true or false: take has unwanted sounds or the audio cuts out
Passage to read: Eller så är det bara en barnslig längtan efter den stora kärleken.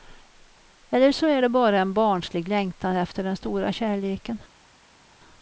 false